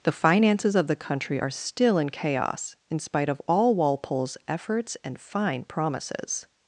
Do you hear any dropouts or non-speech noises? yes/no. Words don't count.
no